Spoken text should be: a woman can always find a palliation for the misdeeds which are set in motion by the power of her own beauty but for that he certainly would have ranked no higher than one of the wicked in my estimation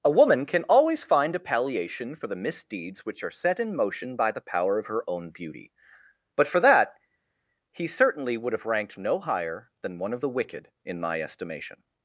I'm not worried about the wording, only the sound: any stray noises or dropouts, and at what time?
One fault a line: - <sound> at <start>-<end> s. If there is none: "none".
none